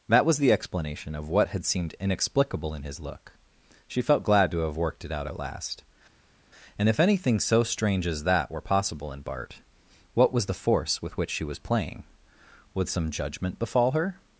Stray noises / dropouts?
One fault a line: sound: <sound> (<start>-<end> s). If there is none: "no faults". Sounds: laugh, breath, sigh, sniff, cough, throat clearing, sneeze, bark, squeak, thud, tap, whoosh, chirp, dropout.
no faults